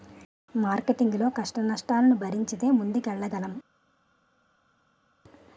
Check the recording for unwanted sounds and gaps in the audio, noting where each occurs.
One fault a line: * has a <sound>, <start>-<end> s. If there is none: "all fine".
all fine